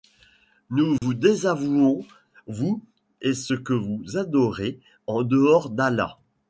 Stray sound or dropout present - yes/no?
yes